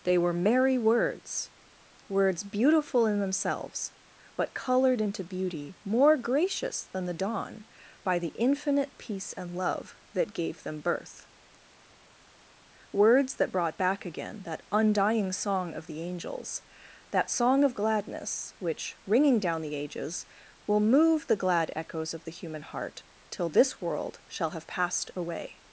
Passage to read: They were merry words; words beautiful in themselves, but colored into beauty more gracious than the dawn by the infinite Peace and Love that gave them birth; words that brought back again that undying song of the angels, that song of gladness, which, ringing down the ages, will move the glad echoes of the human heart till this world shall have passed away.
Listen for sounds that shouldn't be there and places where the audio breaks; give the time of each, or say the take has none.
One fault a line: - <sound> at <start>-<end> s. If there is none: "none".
none